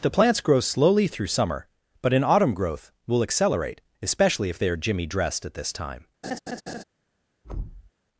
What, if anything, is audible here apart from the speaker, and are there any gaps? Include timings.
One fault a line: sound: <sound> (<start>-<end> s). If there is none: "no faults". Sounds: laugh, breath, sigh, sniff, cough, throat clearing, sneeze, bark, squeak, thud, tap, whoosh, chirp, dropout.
sound: laugh (6.2-6.8 s)
sound: thud (7.4-7.9 s)